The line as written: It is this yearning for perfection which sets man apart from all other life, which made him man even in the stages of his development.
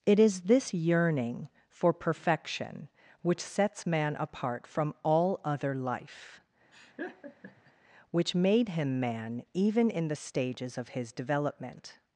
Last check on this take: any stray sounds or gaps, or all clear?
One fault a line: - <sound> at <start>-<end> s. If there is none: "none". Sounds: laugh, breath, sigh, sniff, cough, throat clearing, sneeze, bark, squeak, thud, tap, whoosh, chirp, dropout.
- laugh at 6.7-7.7 s